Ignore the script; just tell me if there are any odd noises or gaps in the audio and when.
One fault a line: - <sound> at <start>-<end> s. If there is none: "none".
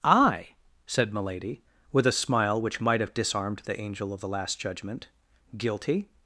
none